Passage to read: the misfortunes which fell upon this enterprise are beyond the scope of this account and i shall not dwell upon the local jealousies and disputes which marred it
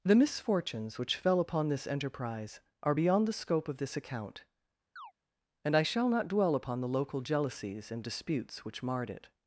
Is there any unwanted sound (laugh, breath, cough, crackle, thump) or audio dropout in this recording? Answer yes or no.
yes